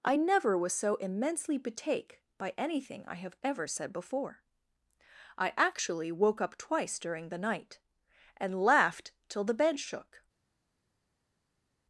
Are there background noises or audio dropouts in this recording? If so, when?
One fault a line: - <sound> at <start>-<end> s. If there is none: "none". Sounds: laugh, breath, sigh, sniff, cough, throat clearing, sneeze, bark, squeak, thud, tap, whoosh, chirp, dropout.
none